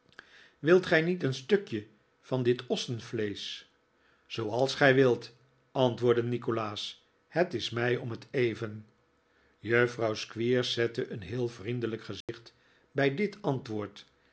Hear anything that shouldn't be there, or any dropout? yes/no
yes